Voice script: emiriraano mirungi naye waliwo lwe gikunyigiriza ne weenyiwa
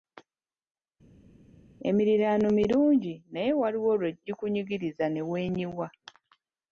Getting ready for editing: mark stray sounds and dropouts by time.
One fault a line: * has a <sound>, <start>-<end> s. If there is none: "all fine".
all fine